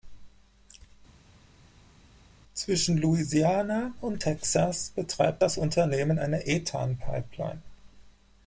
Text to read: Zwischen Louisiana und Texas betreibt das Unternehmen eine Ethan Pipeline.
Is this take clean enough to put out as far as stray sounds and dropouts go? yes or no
yes